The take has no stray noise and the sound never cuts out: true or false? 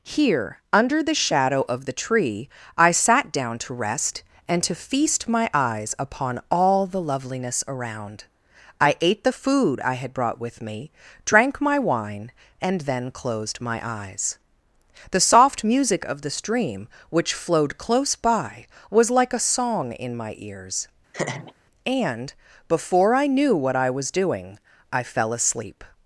false